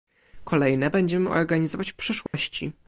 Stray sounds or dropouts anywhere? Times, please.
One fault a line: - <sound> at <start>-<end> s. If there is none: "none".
- dropout at 2.3-2.3 s